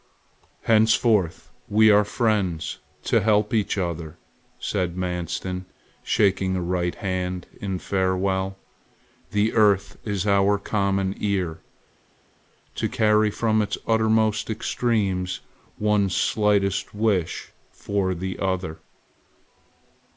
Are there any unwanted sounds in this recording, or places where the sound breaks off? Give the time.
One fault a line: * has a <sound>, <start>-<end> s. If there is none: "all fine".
all fine